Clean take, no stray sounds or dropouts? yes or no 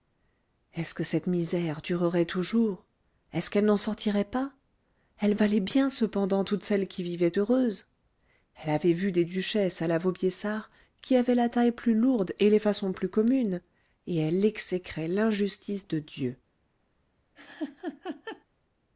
no